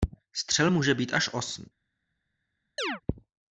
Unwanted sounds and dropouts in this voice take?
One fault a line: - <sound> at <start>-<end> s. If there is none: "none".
- chirp at 2.8-3.0 s